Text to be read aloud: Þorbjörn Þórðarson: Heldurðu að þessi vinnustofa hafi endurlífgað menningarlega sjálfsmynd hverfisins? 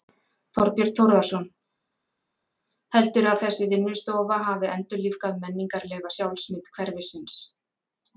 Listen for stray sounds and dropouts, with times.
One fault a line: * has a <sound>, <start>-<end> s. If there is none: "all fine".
all fine